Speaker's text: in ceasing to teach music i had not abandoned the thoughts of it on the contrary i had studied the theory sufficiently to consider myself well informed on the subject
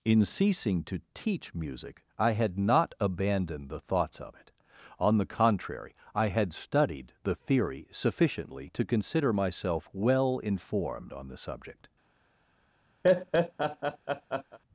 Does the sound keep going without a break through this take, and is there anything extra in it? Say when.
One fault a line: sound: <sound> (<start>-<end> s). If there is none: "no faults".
sound: laugh (13.0-14.6 s)